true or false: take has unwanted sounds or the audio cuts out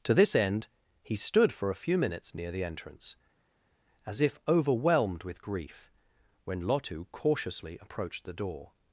false